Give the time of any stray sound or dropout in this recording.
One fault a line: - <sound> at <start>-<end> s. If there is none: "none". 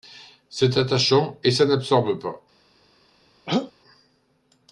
- throat clearing at 3.5-3.7 s